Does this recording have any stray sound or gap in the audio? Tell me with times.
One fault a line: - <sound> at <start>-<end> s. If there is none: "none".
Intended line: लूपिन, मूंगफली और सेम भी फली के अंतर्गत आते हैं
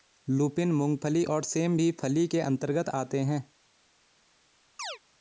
- chirp at 4.8-5.0 s